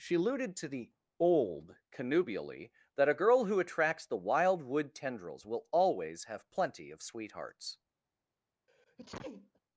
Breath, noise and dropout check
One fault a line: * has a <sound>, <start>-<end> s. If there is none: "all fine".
* has a sneeze, 8.7-9.6 s